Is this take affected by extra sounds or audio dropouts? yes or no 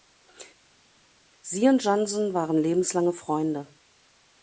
no